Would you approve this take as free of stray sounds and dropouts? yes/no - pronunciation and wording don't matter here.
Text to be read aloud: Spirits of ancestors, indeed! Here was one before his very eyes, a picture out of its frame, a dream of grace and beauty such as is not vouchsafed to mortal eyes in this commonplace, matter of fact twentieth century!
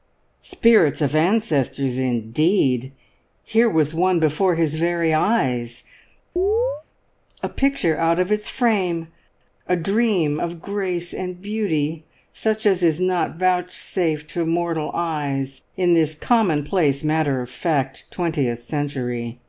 no